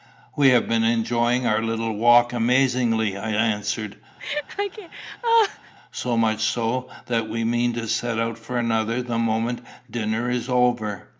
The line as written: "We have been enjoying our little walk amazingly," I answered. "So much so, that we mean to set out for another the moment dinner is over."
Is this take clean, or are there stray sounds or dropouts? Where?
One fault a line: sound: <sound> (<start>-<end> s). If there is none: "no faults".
sound: laugh (4.2-5.7 s)